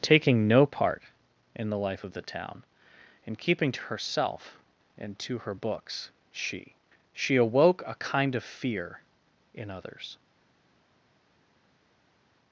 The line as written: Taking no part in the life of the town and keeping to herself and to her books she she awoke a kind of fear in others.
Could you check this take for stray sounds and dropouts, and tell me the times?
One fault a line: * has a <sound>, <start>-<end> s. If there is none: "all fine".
all fine